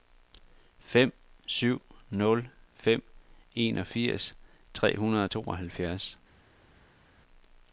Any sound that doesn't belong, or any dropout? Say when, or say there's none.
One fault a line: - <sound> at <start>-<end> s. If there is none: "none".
none